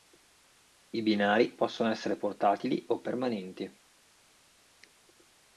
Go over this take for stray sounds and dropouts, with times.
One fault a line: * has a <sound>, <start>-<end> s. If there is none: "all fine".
all fine